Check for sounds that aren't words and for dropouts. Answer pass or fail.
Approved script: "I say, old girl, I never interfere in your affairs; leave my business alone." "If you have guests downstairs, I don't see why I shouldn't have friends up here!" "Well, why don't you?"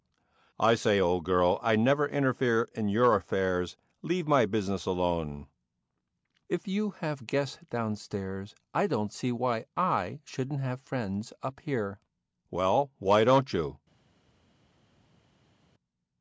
pass